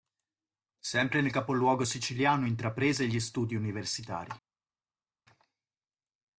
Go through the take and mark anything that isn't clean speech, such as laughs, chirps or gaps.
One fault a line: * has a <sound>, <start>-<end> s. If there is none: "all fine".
all fine